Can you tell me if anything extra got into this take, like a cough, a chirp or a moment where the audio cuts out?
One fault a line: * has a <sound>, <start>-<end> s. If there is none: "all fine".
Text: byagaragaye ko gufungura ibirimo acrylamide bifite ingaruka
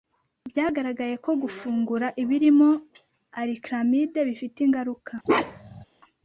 * has a bark, 5.2-5.8 s